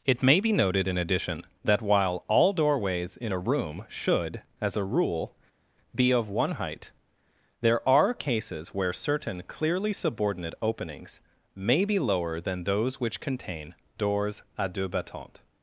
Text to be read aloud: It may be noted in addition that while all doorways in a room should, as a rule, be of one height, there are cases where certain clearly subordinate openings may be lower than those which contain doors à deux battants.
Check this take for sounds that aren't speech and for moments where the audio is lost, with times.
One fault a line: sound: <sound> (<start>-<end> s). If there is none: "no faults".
no faults